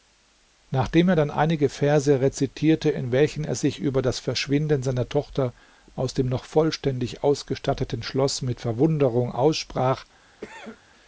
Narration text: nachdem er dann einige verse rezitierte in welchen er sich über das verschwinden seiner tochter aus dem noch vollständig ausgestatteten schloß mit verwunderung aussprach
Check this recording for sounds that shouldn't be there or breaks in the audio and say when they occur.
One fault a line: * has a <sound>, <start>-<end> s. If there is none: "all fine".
* has a cough, 10.4-10.8 s